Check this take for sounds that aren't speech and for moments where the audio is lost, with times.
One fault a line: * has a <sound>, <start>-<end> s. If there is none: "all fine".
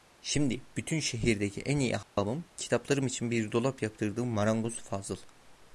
* has a dropout, 2.0-2.2 s